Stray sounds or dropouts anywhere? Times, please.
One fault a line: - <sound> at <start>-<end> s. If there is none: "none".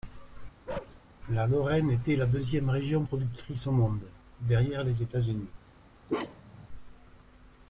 - bark at 0.7-1.0 s
- bark at 6.1-6.7 s